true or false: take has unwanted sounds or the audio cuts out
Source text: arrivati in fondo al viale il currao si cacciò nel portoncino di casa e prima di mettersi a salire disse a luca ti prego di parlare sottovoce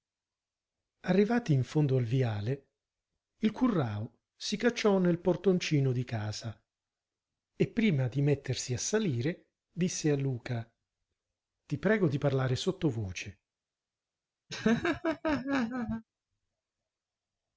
true